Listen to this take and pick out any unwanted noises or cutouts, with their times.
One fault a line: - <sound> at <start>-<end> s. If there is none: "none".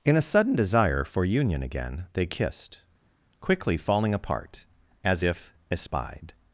none